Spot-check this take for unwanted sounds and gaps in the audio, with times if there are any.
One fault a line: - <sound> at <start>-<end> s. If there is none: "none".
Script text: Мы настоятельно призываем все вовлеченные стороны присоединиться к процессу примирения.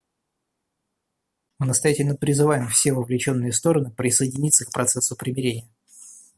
none